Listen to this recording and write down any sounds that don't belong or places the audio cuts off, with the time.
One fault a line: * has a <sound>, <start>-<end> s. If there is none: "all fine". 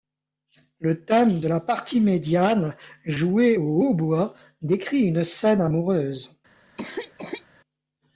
* has a cough, 6.8-7.5 s